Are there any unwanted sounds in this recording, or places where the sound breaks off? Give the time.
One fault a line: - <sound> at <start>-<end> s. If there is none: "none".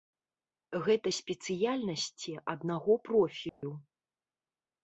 - dropout at 3.5-3.6 s